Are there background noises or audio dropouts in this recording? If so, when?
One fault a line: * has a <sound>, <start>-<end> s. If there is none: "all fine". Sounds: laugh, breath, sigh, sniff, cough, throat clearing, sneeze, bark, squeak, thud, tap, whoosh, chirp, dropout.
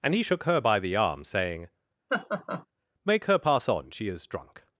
* has a laugh, 2.1-2.7 s